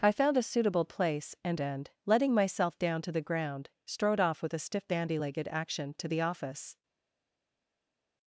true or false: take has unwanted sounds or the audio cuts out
false